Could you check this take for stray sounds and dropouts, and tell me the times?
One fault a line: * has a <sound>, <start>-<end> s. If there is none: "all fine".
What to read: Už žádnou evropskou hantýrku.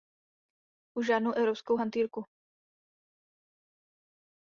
all fine